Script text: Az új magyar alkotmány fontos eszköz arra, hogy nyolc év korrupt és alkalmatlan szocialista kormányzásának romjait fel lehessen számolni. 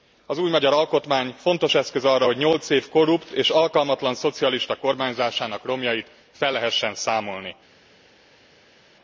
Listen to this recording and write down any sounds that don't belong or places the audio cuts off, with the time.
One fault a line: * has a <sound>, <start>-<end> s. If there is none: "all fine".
all fine